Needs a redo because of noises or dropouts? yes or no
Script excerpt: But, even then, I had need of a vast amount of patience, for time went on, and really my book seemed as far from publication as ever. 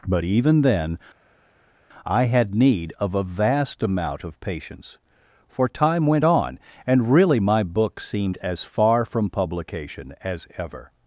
no